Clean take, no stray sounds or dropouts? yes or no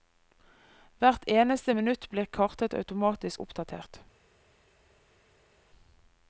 yes